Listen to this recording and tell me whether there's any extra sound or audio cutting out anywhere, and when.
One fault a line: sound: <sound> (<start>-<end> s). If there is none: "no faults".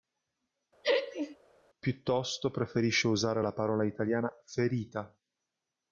sound: laugh (0.8-1.4 s)